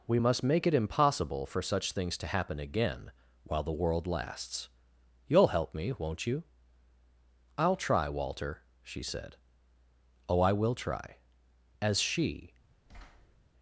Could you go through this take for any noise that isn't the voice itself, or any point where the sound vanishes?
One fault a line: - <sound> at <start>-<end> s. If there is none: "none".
- thud at 12.9-13.4 s